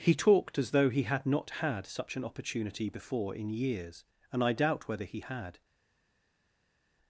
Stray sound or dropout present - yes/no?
no